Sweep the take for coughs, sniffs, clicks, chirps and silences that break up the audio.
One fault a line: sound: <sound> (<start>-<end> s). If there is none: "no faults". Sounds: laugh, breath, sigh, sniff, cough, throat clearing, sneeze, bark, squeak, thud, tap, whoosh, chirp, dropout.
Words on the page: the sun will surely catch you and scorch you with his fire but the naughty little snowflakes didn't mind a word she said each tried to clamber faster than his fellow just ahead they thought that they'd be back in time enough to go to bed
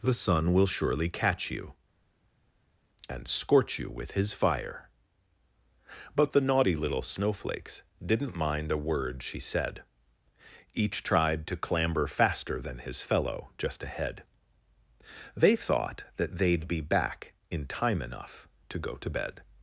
no faults